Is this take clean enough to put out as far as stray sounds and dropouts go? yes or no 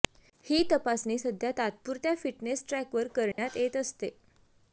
no